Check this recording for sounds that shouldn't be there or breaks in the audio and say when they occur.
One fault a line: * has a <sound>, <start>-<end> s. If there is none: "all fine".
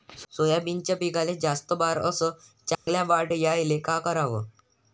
* has a dropout, 2.8-2.9 s